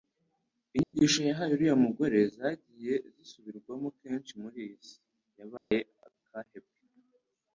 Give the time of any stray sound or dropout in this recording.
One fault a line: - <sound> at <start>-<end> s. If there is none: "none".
- dropout at 0.8-0.9 s
- dropout at 5.6-5.7 s